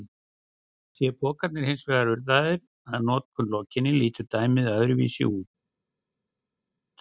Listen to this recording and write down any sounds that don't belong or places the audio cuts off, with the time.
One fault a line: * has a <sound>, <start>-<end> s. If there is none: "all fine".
all fine